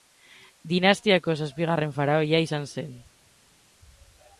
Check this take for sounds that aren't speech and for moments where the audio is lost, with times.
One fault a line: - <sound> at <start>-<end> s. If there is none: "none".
none